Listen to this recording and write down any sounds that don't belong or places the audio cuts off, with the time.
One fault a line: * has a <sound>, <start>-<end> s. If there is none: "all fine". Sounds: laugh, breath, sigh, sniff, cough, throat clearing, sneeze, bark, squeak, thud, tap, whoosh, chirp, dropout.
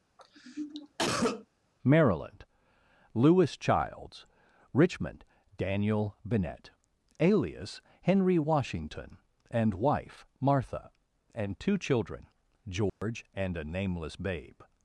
* has a cough, 0.2-1.5 s
* has a dropout, 12.9-13.0 s